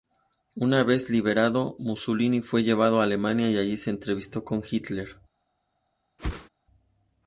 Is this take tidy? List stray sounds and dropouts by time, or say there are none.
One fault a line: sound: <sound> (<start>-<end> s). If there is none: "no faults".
sound: whoosh (6.2-6.5 s)